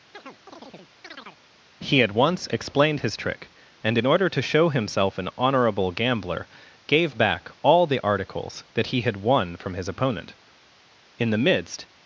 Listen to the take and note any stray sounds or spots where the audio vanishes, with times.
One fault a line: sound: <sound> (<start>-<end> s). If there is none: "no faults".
sound: chirp (0.1-1.4 s)